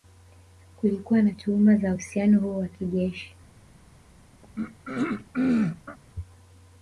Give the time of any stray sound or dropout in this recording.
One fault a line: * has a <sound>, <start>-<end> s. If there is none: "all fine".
* has a throat clearing, 4.4-6.0 s